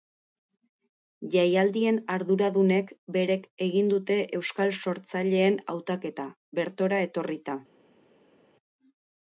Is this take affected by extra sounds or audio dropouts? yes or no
no